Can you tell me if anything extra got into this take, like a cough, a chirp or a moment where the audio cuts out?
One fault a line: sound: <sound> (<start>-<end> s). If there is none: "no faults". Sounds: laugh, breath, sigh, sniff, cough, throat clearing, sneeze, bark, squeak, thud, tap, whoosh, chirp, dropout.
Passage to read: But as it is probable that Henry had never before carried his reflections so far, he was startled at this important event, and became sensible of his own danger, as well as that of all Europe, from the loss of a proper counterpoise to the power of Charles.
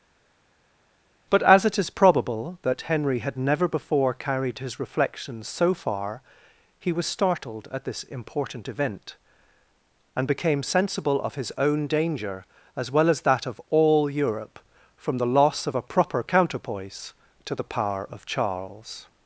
no faults